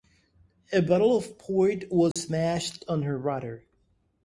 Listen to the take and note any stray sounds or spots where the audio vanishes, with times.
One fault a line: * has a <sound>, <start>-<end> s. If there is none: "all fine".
* has a dropout, 2.1-2.2 s